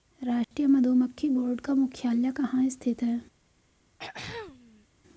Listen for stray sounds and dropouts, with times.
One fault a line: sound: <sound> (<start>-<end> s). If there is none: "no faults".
sound: dropout (0.4-0.5 s)
sound: throat clearing (4.0-4.9 s)